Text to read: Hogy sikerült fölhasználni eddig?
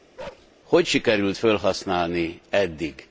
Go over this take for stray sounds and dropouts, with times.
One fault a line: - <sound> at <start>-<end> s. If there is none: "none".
- bark at 0.2-0.5 s